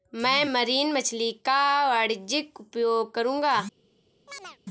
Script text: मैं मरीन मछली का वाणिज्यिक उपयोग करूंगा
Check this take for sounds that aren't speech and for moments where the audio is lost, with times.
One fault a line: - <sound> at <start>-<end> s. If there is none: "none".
- chirp at 4.3-4.6 s